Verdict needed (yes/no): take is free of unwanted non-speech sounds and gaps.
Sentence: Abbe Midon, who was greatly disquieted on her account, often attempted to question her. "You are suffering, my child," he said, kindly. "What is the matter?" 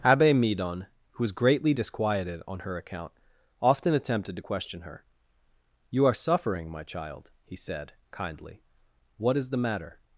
yes